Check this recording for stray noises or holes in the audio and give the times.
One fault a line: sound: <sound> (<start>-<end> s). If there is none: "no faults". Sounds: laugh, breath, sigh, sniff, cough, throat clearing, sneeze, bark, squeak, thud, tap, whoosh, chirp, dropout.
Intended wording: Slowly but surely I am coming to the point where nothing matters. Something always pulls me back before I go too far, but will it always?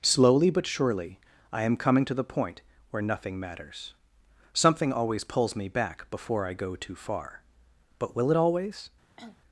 sound: cough (9.2-9.4 s)